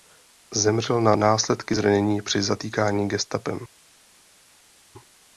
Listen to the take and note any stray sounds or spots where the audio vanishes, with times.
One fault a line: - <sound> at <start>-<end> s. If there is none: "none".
none